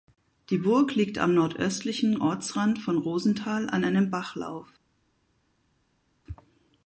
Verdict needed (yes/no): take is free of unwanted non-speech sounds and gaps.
yes